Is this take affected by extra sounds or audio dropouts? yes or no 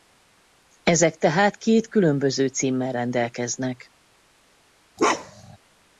yes